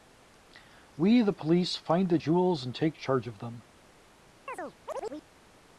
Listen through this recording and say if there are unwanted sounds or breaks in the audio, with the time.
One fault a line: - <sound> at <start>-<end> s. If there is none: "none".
- chirp at 4.5-5.3 s